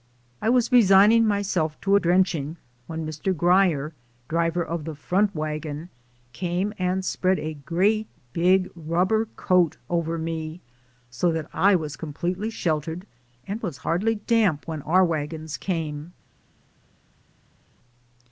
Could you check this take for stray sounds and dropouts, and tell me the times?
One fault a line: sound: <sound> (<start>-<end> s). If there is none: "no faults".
no faults